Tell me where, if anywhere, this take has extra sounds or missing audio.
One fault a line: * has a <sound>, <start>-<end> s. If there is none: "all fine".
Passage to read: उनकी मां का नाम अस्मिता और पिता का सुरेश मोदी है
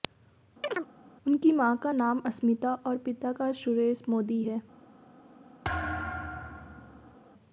* has a chirp, 0.6-0.9 s
* has a thud, 5.6-7.2 s